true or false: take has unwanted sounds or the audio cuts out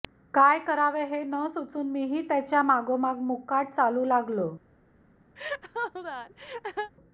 true